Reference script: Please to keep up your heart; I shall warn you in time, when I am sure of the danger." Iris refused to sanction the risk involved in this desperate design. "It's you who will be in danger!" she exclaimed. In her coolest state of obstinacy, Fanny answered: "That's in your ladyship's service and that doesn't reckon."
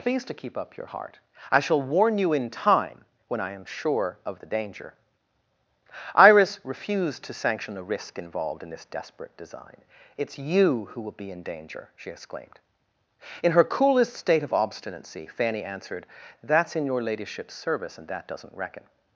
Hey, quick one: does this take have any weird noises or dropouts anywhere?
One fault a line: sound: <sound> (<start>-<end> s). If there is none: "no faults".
no faults